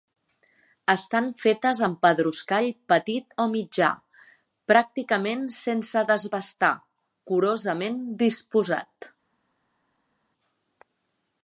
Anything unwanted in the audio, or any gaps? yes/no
no